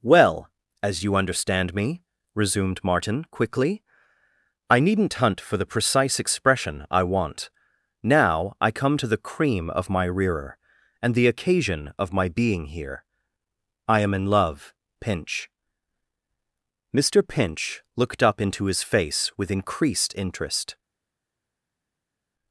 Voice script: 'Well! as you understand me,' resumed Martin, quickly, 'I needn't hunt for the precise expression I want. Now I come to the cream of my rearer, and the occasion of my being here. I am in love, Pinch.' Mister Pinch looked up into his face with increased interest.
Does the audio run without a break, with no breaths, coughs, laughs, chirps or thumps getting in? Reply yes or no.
yes